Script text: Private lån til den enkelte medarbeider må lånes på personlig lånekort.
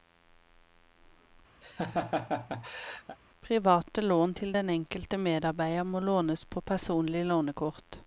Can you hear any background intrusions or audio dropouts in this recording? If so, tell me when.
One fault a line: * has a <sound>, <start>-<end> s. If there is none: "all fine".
* has a laugh, 1.6-3.2 s